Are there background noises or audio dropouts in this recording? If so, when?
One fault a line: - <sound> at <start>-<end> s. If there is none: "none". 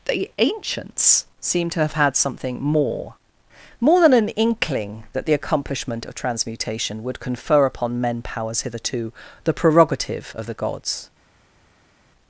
none